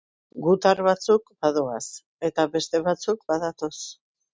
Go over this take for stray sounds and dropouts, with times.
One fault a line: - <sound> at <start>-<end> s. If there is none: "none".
none